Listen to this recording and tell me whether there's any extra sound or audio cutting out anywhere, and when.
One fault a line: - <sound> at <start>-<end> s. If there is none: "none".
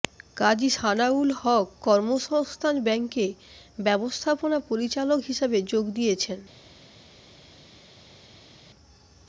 none